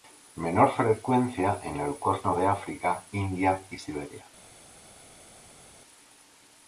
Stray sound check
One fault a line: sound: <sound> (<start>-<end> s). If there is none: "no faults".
no faults